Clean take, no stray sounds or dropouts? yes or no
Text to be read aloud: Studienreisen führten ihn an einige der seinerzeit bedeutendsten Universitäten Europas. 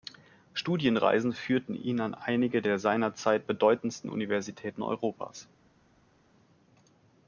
yes